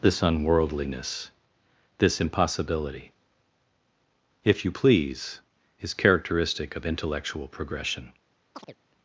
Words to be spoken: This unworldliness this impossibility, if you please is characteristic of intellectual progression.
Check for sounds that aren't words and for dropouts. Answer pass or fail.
fail